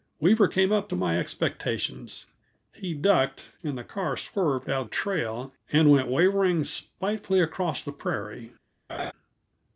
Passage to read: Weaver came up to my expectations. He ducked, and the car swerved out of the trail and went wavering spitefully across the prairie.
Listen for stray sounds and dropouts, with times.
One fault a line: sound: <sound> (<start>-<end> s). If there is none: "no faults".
sound: laugh (8.9-9.1 s)